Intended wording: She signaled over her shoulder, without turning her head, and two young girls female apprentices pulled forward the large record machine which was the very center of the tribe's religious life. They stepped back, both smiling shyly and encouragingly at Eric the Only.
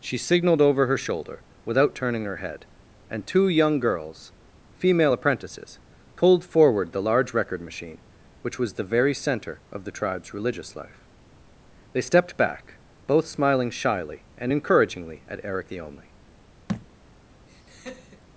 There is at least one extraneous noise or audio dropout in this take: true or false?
true